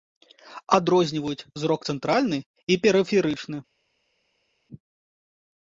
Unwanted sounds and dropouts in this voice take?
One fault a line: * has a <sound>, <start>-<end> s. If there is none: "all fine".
all fine